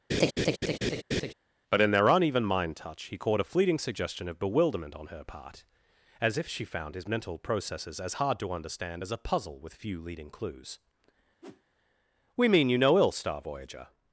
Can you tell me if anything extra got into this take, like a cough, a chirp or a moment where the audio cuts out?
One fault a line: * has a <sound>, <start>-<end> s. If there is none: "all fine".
* has a laugh, 0.1-1.3 s
* has a whoosh, 11.4-11.6 s